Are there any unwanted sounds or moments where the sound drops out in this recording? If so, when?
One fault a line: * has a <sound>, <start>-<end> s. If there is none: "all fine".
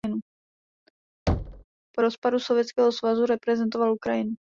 * has a thud, 1.3-1.6 s